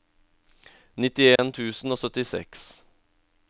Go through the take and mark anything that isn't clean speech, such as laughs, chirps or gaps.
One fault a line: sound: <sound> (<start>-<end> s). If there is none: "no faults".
sound: dropout (1.4-1.4 s)